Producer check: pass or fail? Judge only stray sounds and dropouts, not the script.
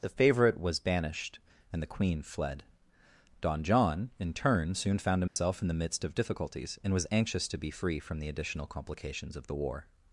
fail